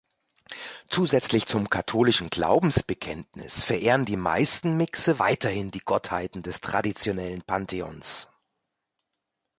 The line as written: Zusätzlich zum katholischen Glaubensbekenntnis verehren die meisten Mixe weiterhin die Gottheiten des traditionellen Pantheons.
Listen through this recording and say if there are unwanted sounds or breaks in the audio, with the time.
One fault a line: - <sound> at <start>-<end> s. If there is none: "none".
none